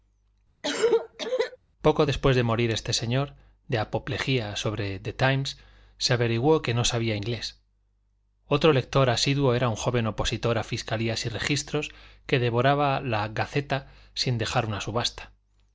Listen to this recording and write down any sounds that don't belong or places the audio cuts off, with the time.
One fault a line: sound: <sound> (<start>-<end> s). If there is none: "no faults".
sound: cough (0.6-1.6 s)